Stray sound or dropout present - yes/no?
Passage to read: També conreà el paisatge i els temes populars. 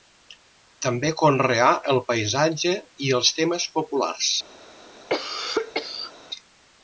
yes